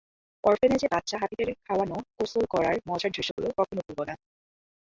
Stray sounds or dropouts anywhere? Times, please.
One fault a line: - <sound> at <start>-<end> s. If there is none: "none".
- dropout at 3.3-3.4 s